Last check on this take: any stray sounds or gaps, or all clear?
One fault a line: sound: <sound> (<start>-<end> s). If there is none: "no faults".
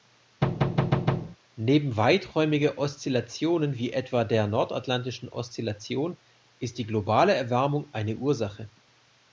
sound: thud (0.4-1.4 s)